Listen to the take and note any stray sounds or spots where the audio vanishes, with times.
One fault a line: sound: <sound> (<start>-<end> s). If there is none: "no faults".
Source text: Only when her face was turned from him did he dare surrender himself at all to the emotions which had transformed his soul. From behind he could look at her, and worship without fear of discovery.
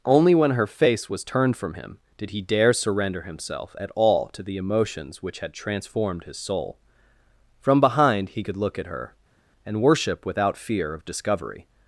no faults